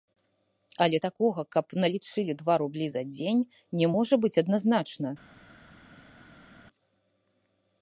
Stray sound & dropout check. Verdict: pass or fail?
pass